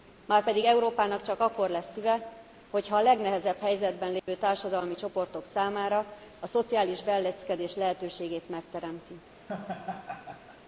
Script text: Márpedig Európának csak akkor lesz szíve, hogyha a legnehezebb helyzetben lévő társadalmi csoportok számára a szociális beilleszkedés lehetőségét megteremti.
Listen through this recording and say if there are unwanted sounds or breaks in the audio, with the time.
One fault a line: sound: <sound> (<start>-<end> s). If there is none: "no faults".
sound: dropout (4.2-4.3 s)
sound: laugh (9.5-10.6 s)